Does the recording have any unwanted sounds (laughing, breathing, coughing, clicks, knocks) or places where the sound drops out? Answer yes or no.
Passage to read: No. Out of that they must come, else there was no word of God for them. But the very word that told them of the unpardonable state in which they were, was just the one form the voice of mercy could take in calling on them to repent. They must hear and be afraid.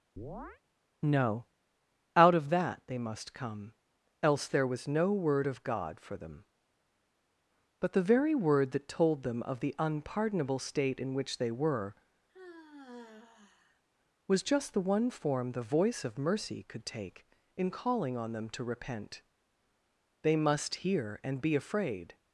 yes